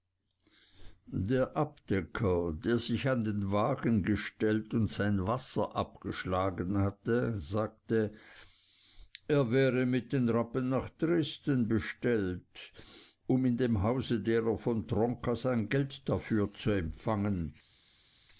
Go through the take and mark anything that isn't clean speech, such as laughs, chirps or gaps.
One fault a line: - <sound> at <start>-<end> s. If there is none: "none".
none